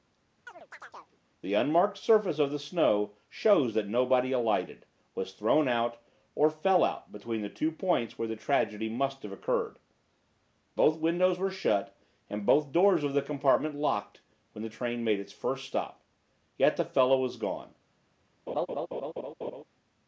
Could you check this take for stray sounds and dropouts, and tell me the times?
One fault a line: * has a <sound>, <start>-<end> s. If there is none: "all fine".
* has a chirp, 0.5-1.2 s
* has a laugh, 18.5-19.6 s